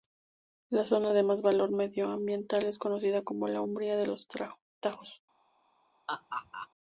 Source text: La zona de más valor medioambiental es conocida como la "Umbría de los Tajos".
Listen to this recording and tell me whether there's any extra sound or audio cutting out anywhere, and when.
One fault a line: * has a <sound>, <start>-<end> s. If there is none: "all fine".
* has a laugh, 6.1-6.7 s